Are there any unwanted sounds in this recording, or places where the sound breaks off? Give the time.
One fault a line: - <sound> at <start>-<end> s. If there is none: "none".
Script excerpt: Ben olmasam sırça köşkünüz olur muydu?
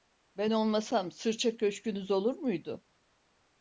none